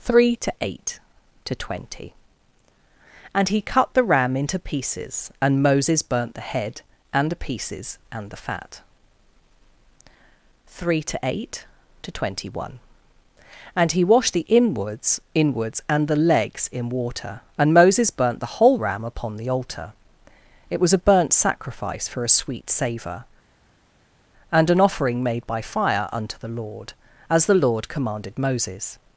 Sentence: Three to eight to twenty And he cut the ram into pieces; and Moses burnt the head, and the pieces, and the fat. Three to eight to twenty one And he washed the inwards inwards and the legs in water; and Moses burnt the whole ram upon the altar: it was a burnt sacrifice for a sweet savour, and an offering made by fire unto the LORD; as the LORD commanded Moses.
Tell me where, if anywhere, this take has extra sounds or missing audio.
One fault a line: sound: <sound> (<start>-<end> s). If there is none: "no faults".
no faults